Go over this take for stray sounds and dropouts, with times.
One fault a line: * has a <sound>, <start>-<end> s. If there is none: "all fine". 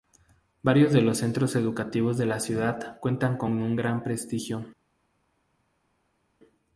all fine